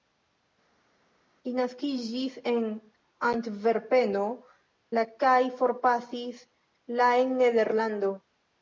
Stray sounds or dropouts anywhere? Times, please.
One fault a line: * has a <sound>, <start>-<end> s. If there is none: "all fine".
all fine